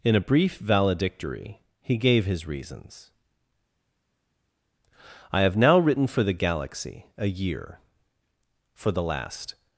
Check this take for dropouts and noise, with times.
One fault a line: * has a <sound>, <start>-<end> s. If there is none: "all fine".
all fine